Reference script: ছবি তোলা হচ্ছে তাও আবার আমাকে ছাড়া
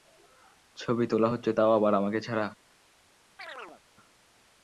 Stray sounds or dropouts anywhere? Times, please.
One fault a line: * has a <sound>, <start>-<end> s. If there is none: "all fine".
* has a chirp, 3.4-3.8 s